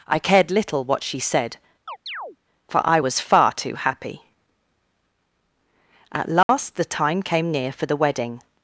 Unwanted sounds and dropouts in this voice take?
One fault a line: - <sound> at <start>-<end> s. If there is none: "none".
- chirp at 1.9-2.4 s
- dropout at 6.4-6.5 s